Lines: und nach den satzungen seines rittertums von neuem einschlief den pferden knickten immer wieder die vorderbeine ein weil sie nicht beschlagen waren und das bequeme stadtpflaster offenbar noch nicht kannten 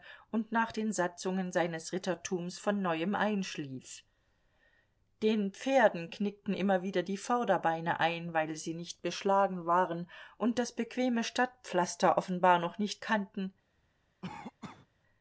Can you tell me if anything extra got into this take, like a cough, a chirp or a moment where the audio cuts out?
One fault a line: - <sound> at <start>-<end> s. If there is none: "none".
- cough at 14.2-14.9 s